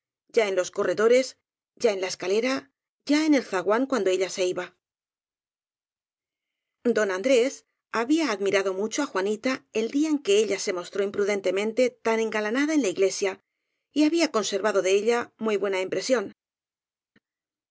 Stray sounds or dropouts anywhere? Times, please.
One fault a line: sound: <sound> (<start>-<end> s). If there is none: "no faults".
no faults